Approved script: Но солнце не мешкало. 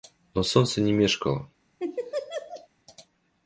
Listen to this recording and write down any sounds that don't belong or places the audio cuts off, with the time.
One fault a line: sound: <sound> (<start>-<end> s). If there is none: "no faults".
sound: laugh (1.8-2.7 s)